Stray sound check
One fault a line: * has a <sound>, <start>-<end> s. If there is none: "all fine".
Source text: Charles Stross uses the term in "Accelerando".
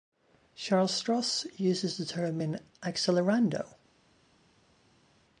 all fine